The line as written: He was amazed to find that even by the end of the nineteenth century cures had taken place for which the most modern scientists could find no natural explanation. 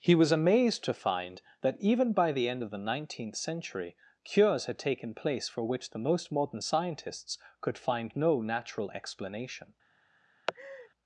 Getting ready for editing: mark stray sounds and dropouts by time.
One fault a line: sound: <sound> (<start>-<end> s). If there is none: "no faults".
sound: laugh (10.5-10.9 s)